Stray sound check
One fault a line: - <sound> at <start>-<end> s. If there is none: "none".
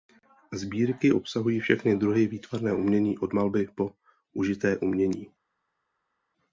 none